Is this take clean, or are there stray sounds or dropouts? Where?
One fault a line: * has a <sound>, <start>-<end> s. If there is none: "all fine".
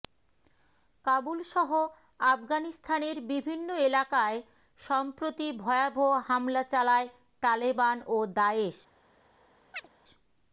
* has a chirp, 9.7-9.9 s